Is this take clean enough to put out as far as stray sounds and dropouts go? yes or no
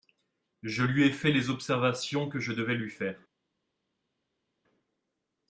yes